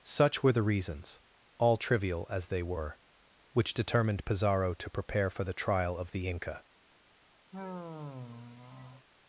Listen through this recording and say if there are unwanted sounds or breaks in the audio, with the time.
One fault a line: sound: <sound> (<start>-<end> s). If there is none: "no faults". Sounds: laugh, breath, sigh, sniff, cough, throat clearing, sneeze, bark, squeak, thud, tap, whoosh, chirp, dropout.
sound: sigh (7.5-9.1 s)